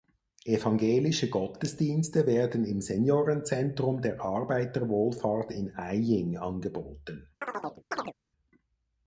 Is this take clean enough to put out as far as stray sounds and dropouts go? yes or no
no